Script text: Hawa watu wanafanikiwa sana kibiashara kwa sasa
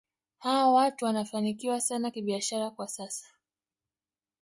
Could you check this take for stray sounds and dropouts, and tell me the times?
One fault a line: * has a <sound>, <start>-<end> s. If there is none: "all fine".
all fine